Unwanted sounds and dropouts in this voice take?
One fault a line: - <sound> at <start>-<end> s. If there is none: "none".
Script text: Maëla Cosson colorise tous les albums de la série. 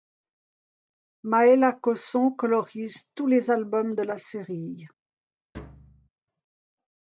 - thud at 5.5-6.1 s